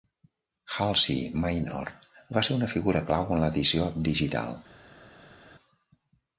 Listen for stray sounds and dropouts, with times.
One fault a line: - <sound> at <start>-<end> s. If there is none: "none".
none